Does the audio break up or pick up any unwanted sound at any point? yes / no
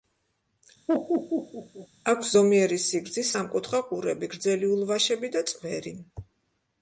yes